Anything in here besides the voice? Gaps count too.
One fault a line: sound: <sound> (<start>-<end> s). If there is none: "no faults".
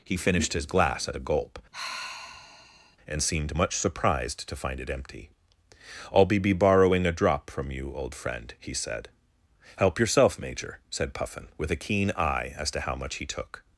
sound: sigh (1.7-3.0 s)